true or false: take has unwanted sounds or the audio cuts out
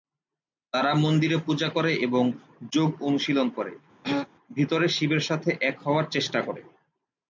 true